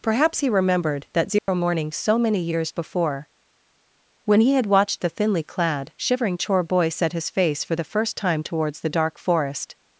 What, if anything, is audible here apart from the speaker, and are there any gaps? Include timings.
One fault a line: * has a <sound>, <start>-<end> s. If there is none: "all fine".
* has a dropout, 1.4-1.5 s